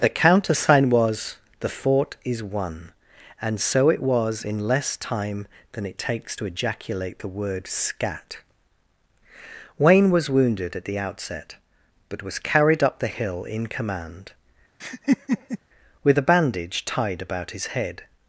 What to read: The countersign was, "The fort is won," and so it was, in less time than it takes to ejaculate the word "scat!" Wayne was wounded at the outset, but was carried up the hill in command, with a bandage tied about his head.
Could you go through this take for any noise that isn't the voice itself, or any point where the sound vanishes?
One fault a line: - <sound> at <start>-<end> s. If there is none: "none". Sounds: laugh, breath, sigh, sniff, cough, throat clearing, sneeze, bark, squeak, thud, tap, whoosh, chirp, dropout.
- laugh at 14.8-15.6 s